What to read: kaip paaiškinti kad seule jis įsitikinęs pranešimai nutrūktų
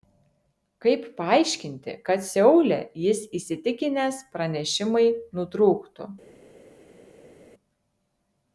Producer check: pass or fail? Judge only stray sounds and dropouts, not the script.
pass